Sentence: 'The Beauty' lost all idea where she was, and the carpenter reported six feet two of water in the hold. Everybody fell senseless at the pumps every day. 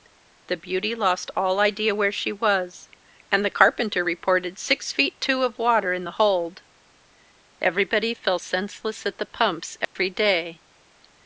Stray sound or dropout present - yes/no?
yes